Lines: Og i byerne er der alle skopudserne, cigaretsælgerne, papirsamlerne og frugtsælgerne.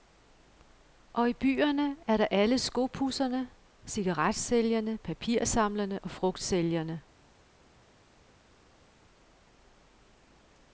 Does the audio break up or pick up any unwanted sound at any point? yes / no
no